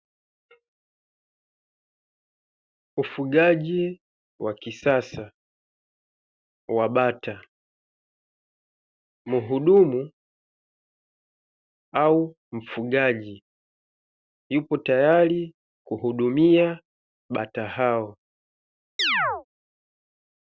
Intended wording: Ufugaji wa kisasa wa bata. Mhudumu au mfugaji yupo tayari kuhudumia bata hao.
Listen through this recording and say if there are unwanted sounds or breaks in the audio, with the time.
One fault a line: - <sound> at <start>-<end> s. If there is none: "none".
- chirp at 19.0-19.4 s